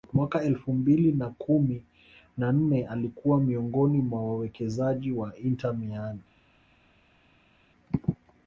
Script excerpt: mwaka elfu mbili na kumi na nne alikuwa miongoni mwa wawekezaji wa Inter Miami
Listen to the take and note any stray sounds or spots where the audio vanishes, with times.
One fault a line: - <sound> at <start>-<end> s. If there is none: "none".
none